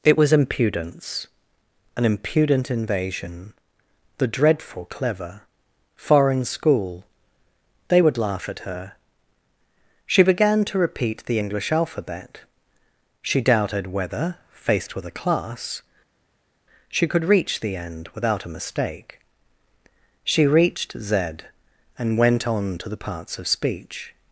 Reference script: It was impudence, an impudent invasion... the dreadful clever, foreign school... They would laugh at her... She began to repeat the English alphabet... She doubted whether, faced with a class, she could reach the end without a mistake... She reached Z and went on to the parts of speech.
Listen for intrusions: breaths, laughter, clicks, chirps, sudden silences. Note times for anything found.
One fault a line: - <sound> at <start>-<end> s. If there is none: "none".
none